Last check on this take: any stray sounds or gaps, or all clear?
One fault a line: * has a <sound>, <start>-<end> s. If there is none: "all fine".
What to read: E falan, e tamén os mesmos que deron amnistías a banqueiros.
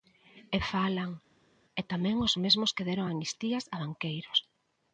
all fine